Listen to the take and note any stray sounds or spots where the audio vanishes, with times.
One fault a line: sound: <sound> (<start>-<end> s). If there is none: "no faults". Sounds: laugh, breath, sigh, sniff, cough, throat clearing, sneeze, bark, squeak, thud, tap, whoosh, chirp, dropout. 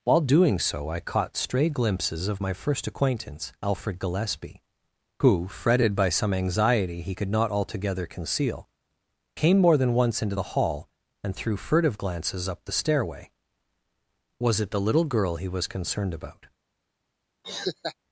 sound: laugh (17.4-18.0 s)